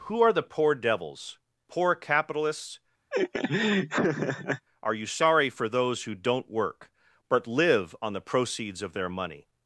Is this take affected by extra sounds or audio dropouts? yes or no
yes